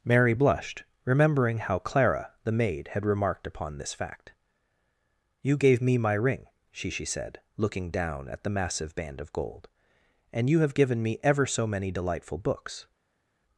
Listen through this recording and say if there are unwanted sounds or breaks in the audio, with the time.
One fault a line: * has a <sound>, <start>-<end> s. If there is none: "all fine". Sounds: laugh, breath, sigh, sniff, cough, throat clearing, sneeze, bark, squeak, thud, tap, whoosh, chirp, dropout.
all fine